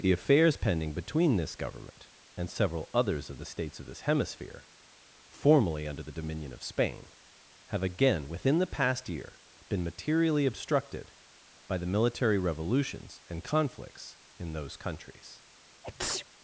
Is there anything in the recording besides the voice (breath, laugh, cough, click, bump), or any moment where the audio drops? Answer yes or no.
yes